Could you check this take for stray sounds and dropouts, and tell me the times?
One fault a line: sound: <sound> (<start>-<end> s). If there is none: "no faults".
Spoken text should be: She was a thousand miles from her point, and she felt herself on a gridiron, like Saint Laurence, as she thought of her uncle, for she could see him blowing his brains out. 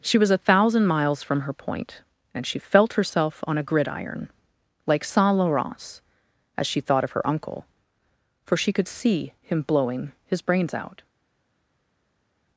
no faults